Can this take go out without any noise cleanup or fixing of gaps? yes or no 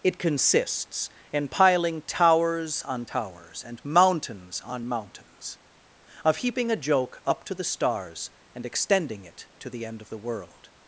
yes